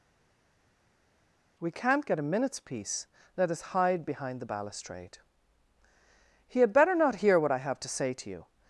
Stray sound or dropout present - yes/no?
no